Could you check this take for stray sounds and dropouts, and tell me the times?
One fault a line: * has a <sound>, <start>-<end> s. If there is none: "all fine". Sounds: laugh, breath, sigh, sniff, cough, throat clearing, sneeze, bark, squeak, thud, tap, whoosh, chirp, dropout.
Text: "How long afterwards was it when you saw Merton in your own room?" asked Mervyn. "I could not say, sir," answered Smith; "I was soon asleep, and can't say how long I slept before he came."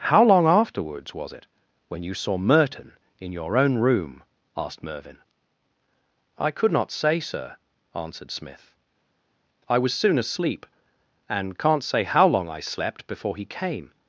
all fine